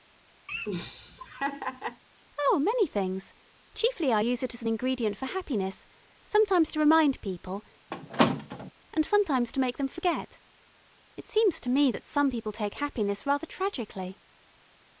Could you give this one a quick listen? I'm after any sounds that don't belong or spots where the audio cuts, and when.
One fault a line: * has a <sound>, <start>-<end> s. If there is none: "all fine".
* has a laugh, 0.5-2.0 s
* has a squeak, 7.9-8.7 s